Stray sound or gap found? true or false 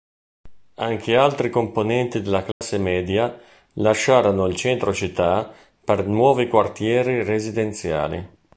true